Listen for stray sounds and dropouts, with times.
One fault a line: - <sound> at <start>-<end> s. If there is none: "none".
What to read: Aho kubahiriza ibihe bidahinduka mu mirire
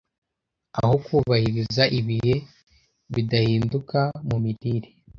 none